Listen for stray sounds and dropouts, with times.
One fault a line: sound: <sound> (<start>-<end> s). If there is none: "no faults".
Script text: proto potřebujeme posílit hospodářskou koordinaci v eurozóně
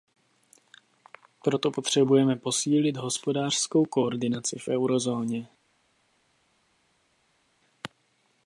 no faults